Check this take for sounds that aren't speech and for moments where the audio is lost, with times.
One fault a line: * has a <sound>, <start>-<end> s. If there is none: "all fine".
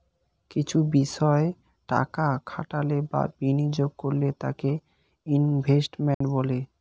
* has a dropout, 6.1-6.2 s